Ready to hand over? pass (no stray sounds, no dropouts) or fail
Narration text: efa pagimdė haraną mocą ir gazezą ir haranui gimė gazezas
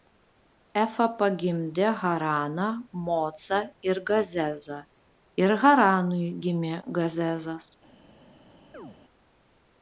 fail